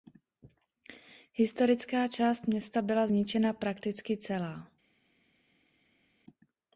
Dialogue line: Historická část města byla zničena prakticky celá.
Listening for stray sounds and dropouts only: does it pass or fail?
pass